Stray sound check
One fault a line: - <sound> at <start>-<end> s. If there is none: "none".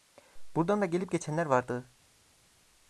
none